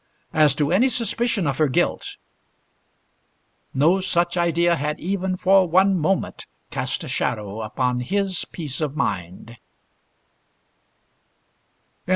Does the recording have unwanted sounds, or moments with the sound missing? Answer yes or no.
no